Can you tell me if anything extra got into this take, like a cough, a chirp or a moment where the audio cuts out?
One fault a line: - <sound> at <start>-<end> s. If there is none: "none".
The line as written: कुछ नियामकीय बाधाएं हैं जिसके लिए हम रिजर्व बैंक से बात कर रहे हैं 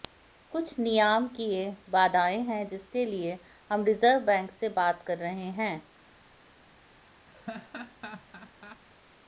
- laugh at 7.3-8.8 s